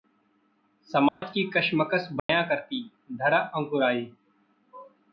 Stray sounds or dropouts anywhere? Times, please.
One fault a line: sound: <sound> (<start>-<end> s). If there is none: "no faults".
sound: dropout (1.1-1.2 s)
sound: dropout (2.2-2.3 s)